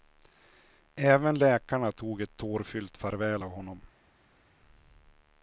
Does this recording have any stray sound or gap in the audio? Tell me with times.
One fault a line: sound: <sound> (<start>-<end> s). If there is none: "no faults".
no faults